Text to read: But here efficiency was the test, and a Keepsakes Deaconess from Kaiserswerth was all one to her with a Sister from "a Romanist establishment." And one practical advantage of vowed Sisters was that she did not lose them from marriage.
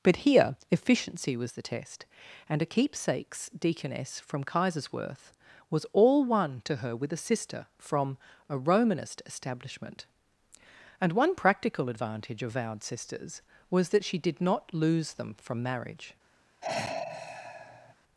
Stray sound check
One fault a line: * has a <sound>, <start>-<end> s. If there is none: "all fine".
* has a sigh, 16.6-17.9 s